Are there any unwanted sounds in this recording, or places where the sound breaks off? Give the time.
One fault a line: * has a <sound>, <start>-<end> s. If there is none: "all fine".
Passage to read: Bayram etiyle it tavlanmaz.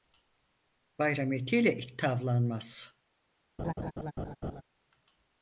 * has a laugh, 3.6-4.6 s